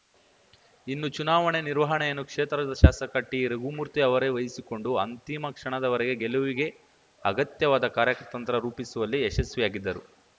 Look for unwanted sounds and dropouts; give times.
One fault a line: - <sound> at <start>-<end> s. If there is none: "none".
none